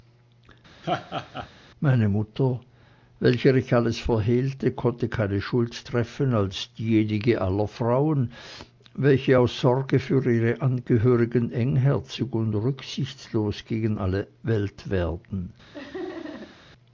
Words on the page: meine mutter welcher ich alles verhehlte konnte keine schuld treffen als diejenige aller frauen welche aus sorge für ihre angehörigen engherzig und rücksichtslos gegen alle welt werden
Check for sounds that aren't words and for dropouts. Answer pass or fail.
fail